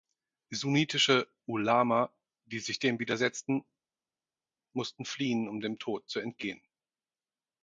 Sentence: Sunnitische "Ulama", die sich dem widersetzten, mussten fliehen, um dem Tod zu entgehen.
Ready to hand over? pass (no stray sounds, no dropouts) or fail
pass